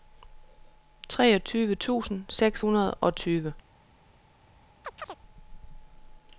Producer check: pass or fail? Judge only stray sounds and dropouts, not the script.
fail